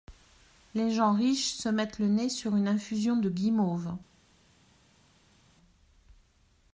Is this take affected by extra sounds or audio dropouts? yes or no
no